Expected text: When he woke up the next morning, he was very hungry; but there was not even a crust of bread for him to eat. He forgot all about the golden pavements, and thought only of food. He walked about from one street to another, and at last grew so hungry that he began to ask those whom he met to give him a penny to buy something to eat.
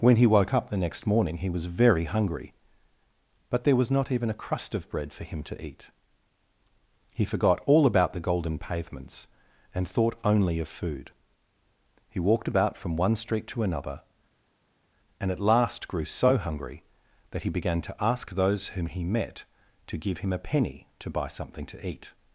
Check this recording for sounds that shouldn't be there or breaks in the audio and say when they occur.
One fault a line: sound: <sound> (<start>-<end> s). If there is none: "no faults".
no faults